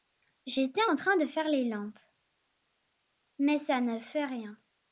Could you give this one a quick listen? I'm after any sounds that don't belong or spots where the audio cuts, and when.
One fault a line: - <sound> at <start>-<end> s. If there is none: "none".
none